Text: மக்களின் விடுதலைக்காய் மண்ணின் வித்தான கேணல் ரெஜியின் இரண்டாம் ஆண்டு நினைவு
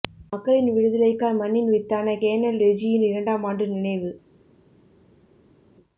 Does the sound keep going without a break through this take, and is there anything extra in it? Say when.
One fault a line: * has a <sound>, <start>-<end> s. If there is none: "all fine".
all fine